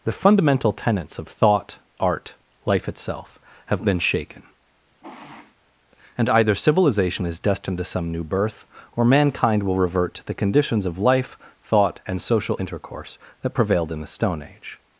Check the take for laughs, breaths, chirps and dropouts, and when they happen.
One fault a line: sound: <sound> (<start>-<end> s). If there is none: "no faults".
sound: sniff (5.0-5.6 s)